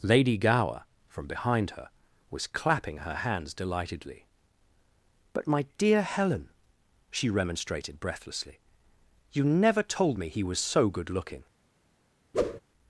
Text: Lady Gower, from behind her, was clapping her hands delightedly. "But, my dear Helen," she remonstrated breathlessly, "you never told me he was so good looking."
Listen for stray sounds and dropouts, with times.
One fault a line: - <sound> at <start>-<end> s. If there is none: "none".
- whoosh at 12.3-12.6 s